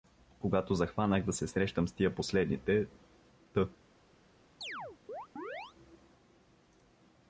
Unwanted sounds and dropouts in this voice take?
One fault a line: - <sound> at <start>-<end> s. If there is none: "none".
- chirp at 4.6-5.7 s